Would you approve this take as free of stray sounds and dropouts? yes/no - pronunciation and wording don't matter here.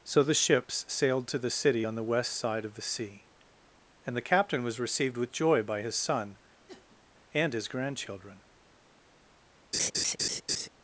no